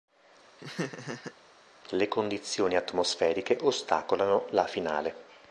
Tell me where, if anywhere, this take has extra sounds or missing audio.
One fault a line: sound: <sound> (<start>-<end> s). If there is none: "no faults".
sound: laugh (0.6-1.3 s)